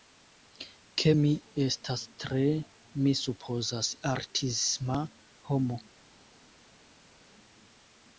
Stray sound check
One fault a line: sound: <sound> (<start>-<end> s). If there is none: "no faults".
no faults